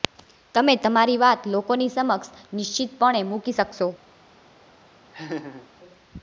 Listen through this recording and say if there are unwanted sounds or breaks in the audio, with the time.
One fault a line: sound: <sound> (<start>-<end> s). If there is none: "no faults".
sound: laugh (5.1-5.7 s)